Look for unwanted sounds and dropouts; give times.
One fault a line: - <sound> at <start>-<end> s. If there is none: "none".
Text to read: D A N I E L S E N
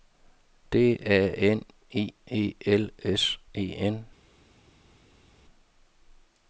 none